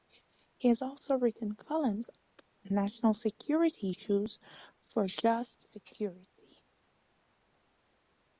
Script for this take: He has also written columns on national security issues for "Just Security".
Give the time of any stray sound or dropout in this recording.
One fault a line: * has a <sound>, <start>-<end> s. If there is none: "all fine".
all fine